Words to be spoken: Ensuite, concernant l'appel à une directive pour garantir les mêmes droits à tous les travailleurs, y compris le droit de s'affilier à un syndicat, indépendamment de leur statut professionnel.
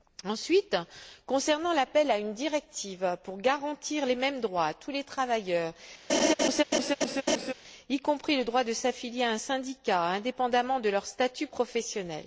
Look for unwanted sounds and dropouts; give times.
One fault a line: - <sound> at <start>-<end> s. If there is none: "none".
- laugh at 6.1-7.5 s